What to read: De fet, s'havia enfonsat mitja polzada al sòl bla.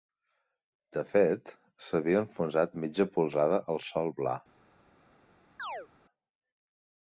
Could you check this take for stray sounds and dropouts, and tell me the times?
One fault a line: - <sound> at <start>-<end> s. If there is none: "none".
- chirp at 5.6-5.9 s